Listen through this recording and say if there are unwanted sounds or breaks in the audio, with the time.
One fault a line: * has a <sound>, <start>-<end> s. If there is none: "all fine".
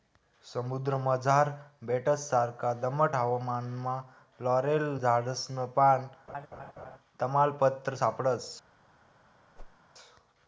* has a laugh, 6.3-7.0 s
* has a whoosh, 9.6-9.8 s